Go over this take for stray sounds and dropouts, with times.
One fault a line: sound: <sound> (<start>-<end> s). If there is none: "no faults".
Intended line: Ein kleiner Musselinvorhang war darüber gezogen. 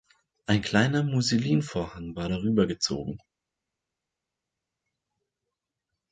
no faults